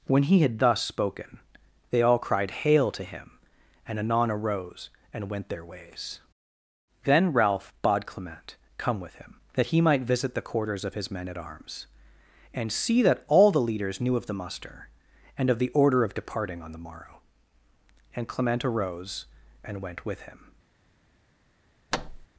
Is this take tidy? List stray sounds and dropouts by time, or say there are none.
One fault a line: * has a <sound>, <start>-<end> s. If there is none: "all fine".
* has a thud, 21.9-22.3 s